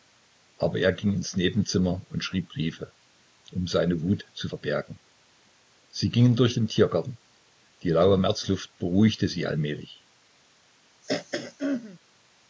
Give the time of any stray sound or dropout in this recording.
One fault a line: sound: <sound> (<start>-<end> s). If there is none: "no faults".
sound: throat clearing (11.0-12.0 s)